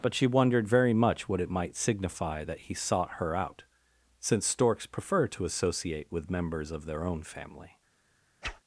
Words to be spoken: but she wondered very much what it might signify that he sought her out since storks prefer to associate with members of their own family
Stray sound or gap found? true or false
true